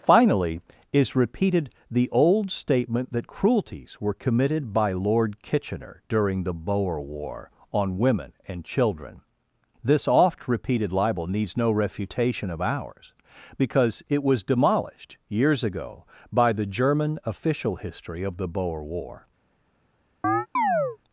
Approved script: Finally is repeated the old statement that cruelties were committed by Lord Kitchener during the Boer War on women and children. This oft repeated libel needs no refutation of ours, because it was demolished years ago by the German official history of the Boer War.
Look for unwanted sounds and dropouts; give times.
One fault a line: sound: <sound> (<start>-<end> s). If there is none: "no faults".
sound: chirp (20.2-21.0 s)